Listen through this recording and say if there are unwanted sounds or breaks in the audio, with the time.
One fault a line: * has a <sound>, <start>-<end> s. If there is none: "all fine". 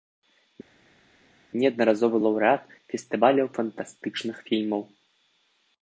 all fine